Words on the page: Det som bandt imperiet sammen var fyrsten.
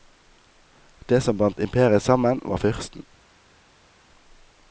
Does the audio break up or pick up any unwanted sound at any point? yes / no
no